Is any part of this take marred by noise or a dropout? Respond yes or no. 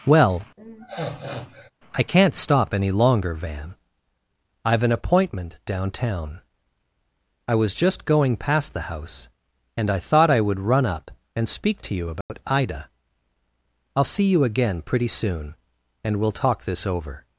yes